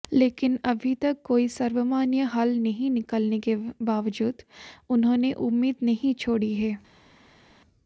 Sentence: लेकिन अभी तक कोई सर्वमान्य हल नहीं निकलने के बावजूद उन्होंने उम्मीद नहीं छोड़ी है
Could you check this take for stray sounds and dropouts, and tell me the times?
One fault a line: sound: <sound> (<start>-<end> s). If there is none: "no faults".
no faults